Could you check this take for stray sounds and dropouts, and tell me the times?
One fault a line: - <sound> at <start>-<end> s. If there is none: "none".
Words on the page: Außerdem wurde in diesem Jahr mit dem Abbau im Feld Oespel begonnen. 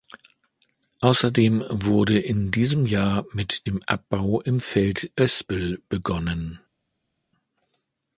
none